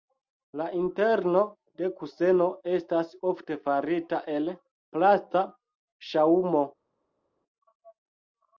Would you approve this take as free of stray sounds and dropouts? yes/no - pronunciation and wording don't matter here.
yes